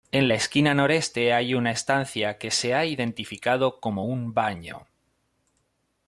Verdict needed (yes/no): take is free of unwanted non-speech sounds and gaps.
yes